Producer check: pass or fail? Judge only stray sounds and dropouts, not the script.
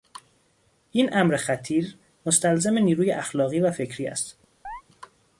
fail